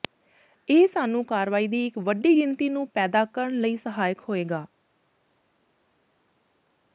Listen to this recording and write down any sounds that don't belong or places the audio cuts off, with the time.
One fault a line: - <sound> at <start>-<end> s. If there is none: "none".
none